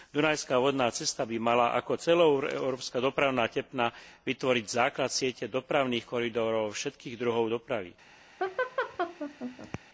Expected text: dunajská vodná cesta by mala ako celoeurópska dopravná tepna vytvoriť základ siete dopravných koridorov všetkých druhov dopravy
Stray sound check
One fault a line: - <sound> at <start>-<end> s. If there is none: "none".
- laugh at 8.4-9.8 s